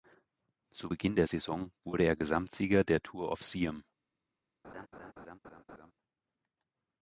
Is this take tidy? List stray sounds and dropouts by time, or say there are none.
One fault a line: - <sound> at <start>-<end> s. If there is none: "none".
- laugh at 4.6-5.9 s